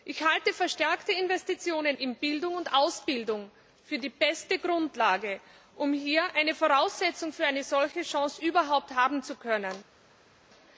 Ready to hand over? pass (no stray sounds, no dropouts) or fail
pass